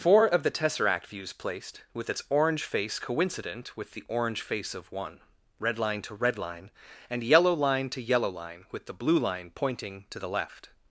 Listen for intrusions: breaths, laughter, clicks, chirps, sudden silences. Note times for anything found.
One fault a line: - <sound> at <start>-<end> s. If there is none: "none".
none